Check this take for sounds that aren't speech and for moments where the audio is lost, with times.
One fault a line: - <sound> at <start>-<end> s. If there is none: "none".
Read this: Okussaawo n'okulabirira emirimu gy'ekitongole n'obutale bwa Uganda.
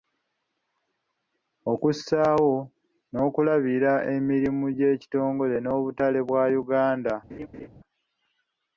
- laugh at 7.3-7.7 s